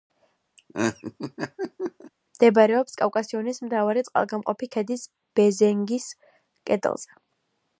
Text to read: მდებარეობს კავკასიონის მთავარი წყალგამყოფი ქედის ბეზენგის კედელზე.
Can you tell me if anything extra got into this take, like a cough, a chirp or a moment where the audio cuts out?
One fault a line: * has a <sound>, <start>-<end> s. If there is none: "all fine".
* has a laugh, 0.6-2.1 s